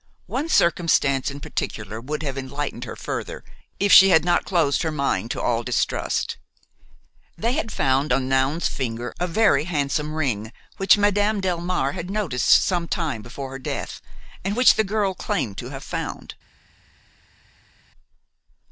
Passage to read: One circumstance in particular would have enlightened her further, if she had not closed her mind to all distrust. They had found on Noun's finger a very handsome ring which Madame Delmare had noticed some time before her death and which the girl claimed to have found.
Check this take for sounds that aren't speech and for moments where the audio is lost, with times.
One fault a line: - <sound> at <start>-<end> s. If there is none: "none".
none